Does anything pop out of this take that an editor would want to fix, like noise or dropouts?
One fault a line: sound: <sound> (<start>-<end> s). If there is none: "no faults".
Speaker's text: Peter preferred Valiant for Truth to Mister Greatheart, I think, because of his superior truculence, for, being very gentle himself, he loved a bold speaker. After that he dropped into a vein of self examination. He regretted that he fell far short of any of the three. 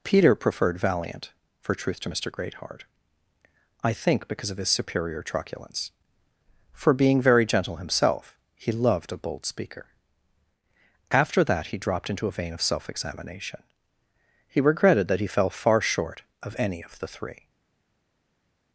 no faults